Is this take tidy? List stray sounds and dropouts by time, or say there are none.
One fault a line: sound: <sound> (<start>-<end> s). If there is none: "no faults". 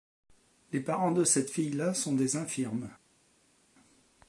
no faults